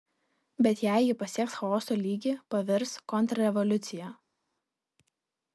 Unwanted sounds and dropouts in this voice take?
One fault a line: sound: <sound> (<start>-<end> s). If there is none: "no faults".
no faults